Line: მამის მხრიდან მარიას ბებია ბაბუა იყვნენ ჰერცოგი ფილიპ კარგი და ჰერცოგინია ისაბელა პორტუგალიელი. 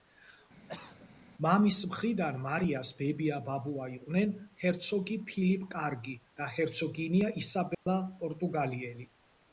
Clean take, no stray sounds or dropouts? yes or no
no